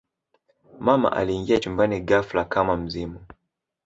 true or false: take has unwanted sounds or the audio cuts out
false